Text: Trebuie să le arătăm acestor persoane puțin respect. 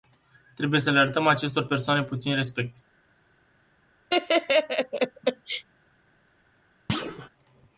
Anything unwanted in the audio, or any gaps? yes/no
yes